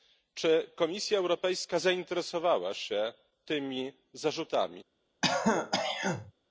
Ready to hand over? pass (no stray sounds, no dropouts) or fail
fail